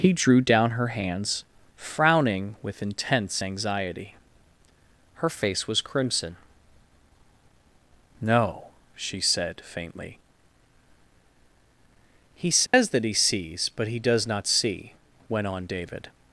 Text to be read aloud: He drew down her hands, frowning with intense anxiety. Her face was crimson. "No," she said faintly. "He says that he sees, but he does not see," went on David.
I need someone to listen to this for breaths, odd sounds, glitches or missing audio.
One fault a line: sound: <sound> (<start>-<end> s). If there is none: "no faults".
sound: dropout (12.7-12.7 s)